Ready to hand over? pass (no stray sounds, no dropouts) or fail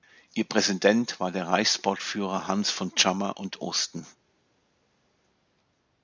pass